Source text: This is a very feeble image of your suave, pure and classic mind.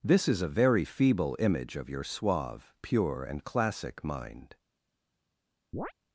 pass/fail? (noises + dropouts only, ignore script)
fail